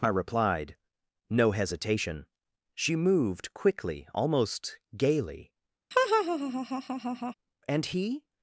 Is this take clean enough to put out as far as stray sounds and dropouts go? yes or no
no